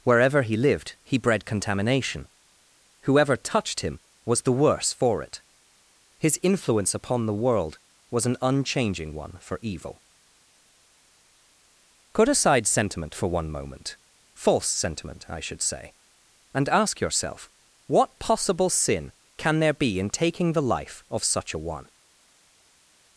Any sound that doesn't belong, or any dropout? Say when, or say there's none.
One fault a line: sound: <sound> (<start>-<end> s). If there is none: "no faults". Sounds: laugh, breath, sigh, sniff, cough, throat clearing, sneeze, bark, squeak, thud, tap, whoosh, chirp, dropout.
no faults